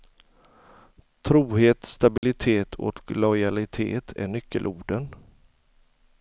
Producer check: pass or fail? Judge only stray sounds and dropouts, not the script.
fail